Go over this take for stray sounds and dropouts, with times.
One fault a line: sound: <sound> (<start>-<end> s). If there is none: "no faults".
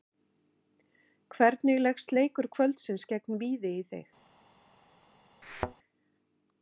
sound: thud (5.4-5.7 s)